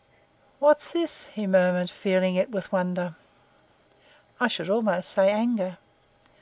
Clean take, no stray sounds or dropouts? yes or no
yes